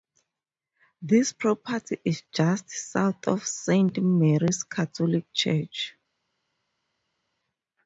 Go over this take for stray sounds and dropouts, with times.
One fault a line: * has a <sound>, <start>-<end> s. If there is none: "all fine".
all fine